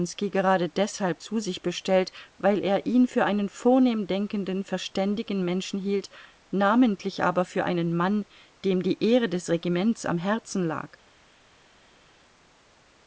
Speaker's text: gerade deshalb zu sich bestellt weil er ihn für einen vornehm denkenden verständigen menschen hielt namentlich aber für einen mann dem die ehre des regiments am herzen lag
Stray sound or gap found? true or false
false